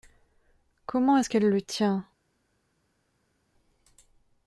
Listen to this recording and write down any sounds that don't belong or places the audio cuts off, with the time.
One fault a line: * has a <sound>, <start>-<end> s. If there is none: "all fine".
all fine